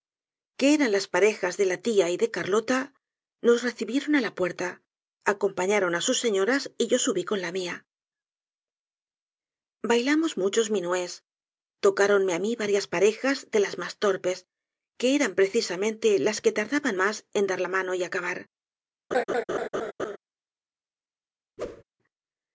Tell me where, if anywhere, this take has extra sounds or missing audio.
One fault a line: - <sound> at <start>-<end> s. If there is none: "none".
- laugh at 19.1-20.2 s
- whoosh at 21.6-21.8 s